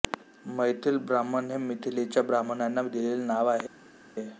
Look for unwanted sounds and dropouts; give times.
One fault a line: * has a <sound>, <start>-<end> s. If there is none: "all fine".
all fine